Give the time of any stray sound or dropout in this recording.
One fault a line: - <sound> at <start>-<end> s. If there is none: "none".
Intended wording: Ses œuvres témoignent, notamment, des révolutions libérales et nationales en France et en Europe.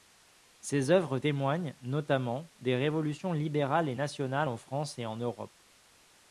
none